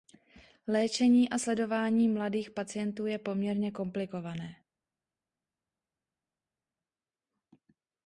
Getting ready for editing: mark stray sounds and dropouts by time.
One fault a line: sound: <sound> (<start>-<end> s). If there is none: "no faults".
no faults